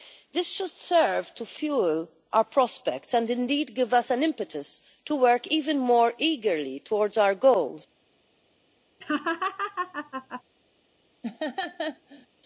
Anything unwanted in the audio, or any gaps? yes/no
yes